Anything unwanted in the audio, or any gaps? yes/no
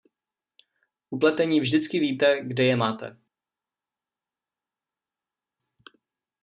no